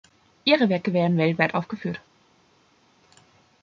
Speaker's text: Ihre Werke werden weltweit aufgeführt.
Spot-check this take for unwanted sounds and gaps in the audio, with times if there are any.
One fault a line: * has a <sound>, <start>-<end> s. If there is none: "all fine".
all fine